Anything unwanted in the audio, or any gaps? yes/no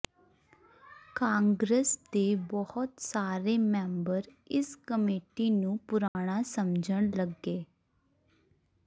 yes